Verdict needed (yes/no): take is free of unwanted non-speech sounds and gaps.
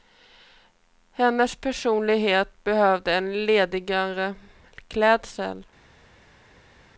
yes